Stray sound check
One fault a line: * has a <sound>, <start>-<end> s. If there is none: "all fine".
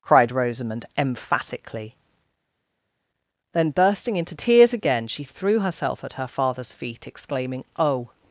all fine